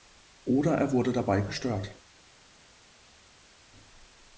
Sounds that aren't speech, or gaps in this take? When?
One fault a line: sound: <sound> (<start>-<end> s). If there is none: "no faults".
no faults